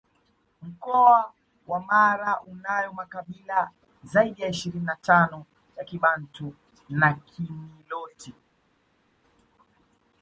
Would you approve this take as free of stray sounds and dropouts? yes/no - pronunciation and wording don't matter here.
yes